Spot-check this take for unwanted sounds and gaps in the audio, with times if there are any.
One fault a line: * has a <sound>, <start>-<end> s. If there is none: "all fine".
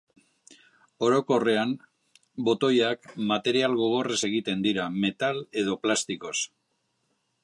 all fine